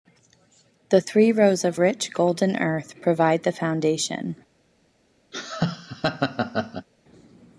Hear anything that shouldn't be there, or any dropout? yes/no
yes